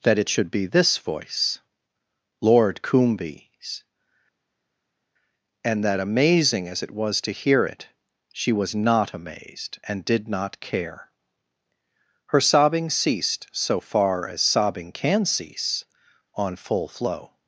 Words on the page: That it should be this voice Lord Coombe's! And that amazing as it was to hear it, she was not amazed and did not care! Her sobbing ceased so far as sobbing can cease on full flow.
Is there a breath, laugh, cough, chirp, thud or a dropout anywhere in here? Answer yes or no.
no